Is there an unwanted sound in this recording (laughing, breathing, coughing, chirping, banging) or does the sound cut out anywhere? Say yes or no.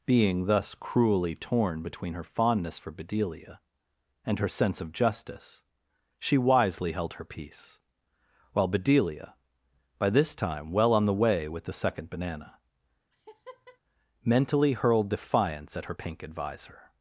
yes